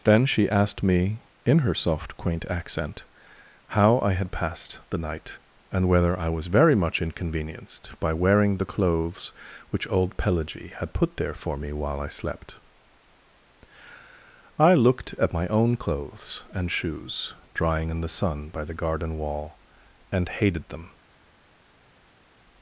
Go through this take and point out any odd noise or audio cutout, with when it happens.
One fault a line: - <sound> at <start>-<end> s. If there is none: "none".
none